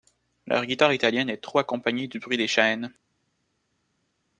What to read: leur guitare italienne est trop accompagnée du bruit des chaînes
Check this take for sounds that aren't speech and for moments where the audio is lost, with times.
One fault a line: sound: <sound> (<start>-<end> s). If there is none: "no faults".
no faults